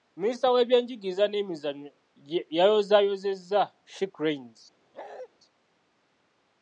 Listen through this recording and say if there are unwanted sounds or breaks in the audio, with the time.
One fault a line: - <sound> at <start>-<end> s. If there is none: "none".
- bark at 4.9-5.3 s